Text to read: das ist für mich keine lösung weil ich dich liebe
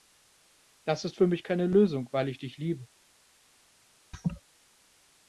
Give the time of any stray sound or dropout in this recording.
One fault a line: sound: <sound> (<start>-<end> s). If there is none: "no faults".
sound: laugh (4.1-4.4 s)